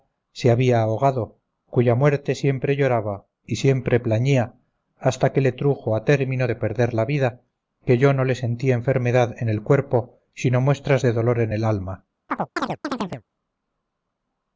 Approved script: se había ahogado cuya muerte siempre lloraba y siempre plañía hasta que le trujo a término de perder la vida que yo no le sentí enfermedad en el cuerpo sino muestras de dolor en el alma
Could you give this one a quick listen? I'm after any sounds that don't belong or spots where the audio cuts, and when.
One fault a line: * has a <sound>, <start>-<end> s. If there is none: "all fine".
* has a chirp, 12.3-13.2 s